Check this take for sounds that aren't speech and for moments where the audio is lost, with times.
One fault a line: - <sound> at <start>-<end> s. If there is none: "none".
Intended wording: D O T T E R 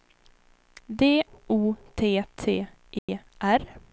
- dropout at 3.0-3.1 s